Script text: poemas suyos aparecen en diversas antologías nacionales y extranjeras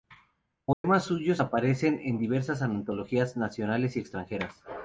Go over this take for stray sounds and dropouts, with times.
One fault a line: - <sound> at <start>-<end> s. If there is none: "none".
- dropout at 0.7-0.8 s